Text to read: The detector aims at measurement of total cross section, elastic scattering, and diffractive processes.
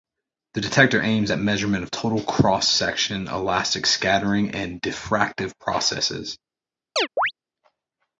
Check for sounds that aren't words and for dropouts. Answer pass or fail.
fail